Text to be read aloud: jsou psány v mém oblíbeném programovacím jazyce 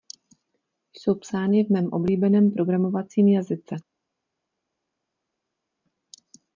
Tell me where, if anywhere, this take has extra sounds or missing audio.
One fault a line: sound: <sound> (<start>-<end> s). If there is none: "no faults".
no faults